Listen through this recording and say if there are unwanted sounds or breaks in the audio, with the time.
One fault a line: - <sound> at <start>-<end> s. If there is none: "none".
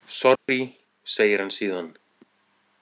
- dropout at 0.4-0.5 s